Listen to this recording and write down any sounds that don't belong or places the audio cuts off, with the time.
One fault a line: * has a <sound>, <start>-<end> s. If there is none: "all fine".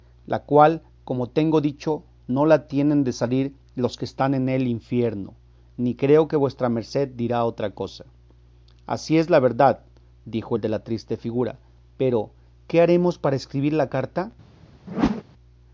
* has a whoosh, 14.9-15.2 s